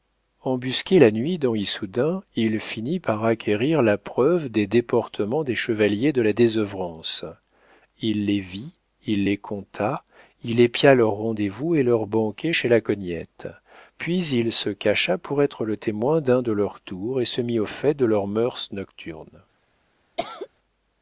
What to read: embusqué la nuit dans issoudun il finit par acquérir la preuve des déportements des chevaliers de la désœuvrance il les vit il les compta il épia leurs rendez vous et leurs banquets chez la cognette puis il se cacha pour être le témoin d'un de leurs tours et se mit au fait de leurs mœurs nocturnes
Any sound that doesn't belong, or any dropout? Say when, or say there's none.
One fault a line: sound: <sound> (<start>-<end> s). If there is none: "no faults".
sound: cough (20.2-20.5 s)